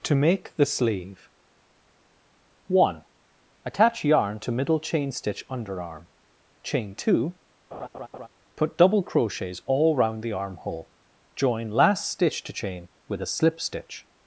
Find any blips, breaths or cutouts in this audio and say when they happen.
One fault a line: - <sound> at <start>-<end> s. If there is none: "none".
- laugh at 7.7-8.3 s